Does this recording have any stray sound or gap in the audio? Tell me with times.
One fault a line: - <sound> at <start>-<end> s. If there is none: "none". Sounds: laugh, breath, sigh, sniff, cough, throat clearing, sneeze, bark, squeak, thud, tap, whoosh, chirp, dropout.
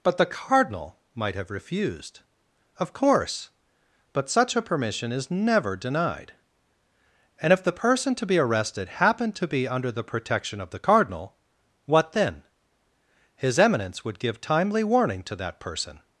none